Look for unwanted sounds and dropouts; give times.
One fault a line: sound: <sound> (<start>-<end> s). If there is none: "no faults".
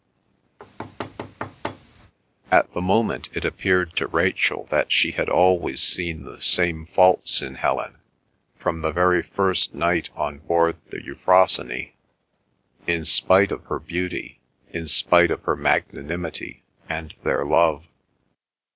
sound: thud (0.6-2.1 s)